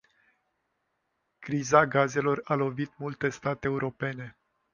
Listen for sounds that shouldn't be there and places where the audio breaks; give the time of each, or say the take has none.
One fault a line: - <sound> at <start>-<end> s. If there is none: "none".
none